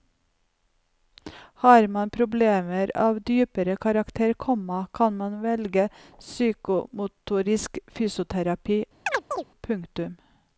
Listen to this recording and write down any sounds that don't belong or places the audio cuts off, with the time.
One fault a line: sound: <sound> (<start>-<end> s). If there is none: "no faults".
sound: chirp (9.1-9.4 s)